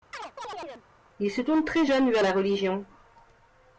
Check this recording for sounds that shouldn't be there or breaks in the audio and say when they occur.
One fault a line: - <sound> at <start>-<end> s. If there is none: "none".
- chirp at 0.1-0.9 s